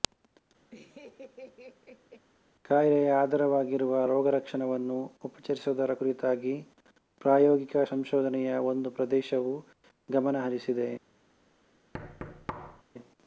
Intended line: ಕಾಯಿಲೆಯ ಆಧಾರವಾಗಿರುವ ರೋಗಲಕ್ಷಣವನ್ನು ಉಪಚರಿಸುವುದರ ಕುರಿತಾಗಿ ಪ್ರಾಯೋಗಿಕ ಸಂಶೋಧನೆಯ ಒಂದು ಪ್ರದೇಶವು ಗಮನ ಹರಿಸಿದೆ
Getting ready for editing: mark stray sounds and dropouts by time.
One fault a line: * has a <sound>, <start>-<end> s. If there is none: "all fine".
* has a laugh, 0.7-2.3 s
* has a thud, 11.9-12.8 s